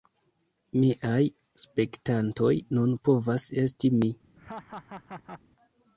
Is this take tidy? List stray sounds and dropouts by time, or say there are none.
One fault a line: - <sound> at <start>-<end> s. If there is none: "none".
- laugh at 4.4-5.4 s